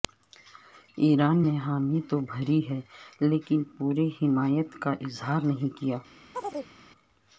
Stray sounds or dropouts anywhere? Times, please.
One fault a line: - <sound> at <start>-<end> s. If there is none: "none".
- chirp at 6.3-6.7 s